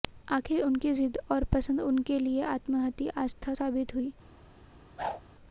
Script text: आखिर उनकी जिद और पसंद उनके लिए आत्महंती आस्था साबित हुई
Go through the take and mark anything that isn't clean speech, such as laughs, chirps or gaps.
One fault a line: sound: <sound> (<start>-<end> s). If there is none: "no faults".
sound: whoosh (5.0-5.2 s)